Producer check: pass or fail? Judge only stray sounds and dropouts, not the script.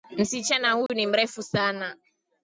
fail